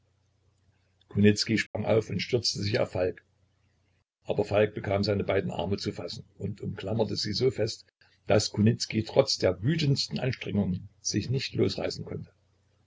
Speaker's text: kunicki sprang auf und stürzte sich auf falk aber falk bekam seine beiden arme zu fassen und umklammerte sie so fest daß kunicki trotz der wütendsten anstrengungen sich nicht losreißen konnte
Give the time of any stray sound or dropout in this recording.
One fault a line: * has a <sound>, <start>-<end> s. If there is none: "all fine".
* has a dropout, 1.7-1.7 s